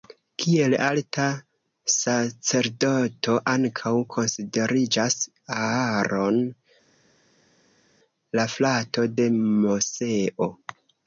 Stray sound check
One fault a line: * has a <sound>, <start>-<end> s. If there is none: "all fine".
all fine